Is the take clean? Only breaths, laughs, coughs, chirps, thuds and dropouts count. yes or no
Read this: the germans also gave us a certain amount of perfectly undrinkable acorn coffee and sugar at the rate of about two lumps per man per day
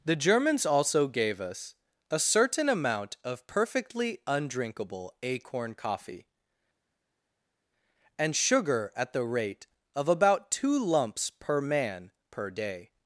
yes